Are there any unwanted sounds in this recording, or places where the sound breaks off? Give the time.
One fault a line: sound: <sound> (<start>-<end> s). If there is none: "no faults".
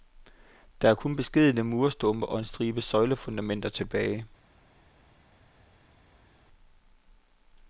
no faults